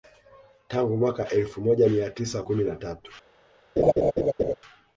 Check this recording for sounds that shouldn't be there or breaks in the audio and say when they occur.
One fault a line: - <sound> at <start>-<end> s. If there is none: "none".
- laugh at 3.8-4.5 s